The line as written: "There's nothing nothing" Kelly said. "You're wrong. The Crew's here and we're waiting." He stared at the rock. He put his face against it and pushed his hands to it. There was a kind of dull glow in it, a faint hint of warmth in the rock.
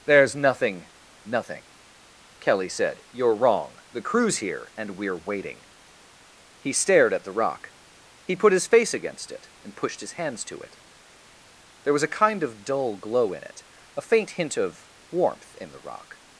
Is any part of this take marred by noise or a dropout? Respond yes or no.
no